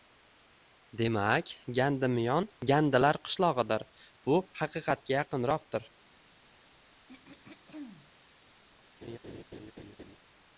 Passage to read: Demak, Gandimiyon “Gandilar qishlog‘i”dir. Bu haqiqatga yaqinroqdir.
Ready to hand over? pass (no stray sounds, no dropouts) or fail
fail